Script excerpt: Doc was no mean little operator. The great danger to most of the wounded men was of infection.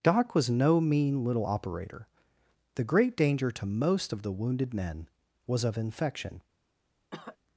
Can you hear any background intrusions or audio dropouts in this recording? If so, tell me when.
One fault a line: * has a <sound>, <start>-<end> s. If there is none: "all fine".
* has a cough, 7.1-7.4 s